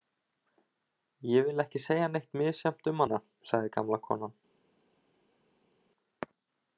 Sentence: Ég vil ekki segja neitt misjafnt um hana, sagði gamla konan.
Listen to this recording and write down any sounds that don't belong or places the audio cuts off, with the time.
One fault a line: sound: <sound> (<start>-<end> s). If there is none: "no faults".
no faults